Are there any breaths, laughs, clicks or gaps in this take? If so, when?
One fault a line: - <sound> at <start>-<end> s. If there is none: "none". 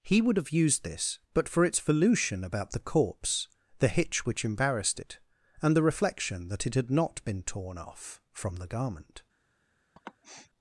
- sniff at 10.0-10.5 s